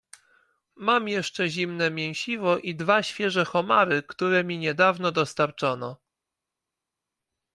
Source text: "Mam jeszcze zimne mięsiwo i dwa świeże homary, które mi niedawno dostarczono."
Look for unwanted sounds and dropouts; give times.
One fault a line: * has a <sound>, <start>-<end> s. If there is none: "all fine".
all fine